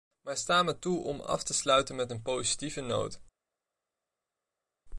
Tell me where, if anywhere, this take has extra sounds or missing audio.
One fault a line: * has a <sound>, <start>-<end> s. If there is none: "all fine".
all fine